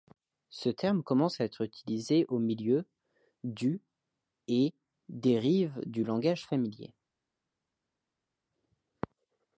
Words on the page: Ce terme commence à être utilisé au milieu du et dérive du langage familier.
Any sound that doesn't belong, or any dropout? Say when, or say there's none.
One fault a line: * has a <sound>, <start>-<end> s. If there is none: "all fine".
all fine